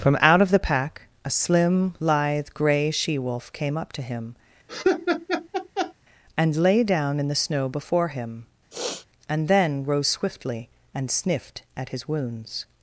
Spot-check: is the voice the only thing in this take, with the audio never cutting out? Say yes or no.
no